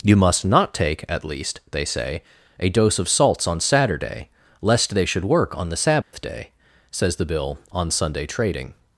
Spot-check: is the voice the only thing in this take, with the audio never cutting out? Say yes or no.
no